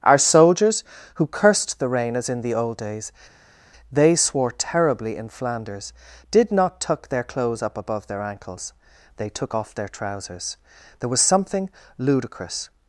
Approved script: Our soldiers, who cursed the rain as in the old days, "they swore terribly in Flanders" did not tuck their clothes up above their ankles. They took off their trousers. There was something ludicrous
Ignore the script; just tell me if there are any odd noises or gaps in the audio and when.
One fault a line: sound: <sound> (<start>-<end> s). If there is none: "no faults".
no faults